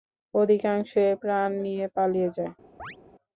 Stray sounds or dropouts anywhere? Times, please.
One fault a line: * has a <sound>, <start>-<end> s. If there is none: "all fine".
* has a chirp, 2.8-3.0 s